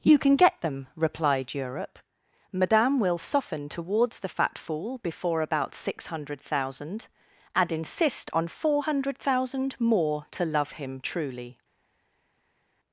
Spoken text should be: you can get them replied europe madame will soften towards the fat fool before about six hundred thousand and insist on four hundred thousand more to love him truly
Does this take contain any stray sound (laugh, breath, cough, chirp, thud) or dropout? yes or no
no